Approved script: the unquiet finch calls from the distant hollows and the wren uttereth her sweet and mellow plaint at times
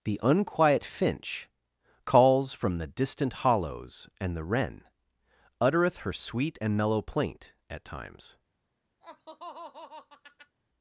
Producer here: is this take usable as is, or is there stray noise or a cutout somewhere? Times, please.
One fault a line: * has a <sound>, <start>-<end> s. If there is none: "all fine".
* has a laugh, 9.0-10.6 s